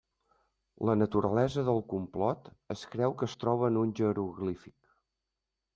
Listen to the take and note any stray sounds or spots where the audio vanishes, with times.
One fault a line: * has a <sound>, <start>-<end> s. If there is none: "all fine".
all fine